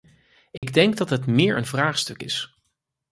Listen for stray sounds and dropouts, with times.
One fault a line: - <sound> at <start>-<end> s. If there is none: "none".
- dropout at 0.6-0.6 s